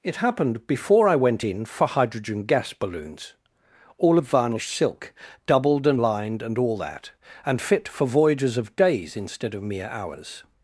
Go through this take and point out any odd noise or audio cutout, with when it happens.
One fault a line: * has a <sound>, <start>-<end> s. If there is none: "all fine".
all fine